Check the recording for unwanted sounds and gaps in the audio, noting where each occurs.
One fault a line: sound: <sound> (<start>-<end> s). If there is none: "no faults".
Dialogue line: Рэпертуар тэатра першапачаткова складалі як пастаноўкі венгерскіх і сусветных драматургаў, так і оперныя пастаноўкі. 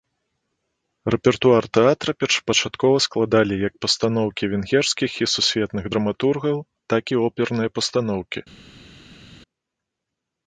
no faults